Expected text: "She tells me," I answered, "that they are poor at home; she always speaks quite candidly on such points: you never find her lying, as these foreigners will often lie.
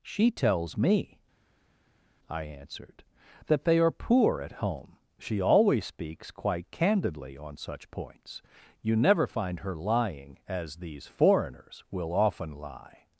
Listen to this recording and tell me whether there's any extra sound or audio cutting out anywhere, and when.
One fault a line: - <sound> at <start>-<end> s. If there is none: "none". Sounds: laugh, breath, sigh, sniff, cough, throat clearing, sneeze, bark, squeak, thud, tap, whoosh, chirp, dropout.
none